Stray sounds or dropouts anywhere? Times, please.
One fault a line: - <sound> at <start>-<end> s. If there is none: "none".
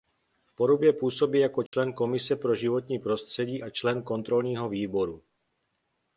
- dropout at 1.7-1.7 s